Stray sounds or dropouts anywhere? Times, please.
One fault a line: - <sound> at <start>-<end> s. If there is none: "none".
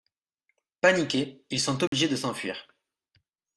- dropout at 1.9-1.9 s